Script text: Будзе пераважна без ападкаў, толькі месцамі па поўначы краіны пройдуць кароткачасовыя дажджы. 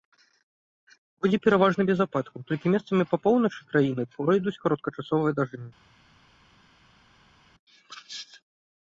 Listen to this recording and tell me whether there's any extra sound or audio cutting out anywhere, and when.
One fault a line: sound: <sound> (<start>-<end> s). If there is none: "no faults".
no faults